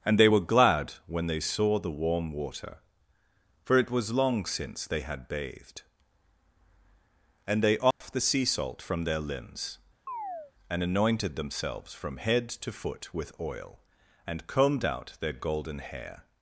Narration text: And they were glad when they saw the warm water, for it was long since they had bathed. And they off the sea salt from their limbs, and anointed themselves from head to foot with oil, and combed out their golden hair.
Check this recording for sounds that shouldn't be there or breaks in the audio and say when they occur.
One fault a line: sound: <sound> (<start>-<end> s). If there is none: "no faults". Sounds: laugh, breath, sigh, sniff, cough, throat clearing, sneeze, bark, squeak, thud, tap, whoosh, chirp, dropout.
sound: dropout (7.9-8.0 s)
sound: chirp (10.1-10.5 s)